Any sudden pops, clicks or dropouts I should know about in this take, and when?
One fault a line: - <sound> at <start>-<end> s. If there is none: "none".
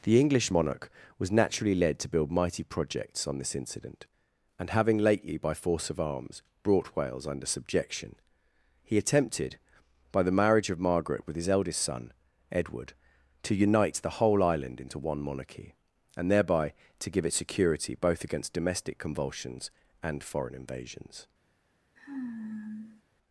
- sigh at 22.0-23.0 s